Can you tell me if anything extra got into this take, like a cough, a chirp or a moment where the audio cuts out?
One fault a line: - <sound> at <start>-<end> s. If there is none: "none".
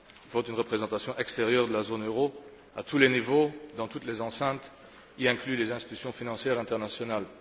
none